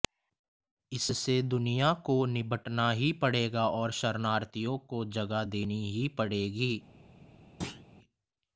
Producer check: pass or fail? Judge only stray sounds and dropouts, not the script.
fail